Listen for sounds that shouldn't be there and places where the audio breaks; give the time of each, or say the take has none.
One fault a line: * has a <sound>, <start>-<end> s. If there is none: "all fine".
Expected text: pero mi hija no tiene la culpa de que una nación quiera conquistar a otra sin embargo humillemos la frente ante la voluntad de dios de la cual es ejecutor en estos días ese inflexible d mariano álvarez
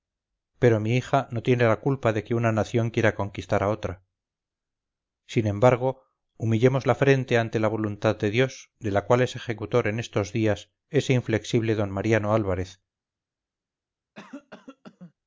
* has a cough, 14.1-15.1 s